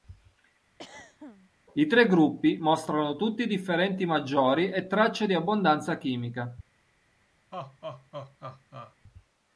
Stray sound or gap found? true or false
true